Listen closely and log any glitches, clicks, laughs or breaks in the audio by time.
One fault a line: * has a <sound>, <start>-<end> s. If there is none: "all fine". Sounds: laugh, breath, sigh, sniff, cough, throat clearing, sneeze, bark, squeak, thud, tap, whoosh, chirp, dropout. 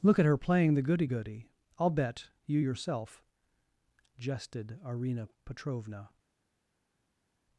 all fine